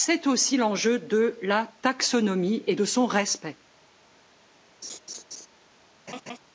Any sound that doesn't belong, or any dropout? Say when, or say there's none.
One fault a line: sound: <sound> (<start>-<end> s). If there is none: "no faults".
sound: laugh (4.8-5.5 s)
sound: laugh (6.1-6.4 s)